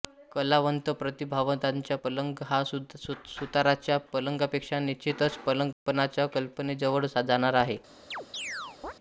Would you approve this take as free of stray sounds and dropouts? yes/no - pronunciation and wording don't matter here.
no